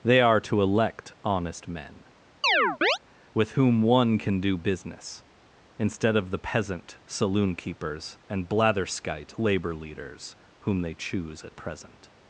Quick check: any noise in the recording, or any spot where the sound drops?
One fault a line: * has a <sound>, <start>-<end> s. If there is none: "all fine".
* has a chirp, 2.4-3.0 s